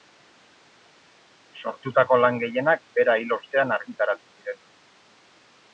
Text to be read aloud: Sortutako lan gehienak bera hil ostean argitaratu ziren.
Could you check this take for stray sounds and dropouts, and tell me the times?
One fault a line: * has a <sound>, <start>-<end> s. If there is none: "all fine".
all fine